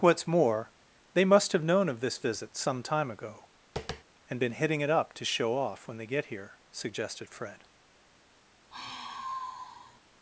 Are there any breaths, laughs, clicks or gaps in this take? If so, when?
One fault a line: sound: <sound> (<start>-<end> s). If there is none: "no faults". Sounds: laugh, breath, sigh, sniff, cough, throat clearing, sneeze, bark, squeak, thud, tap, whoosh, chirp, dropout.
sound: tap (3.8-4.0 s)
sound: sigh (8.7-10.0 s)